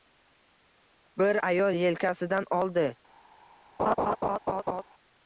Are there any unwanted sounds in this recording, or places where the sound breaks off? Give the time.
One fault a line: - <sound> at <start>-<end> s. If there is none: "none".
- laugh at 3.8-4.8 s